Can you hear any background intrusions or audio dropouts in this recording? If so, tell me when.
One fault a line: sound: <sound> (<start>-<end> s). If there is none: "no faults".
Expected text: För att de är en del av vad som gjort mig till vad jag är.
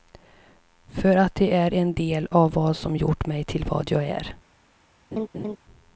sound: laugh (5.1-5.6 s)